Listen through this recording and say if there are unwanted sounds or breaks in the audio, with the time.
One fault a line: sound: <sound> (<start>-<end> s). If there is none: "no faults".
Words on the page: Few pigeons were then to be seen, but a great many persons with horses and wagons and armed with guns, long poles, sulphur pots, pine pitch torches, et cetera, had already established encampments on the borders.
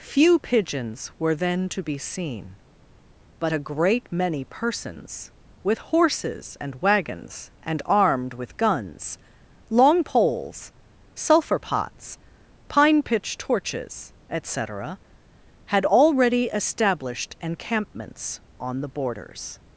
no faults